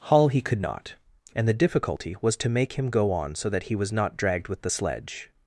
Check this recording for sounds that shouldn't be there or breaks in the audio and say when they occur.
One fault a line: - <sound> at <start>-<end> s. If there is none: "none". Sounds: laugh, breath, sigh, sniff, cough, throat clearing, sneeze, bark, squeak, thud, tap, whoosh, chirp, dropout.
none